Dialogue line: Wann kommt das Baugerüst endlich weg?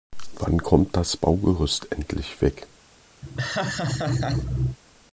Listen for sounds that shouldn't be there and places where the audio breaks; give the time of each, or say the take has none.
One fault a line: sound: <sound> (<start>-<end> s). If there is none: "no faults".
sound: laugh (3.2-4.8 s)